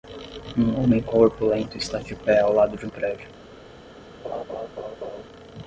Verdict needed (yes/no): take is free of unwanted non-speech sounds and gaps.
no